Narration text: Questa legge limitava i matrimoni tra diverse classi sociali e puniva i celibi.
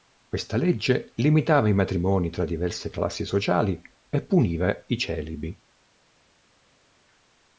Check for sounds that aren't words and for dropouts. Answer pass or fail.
pass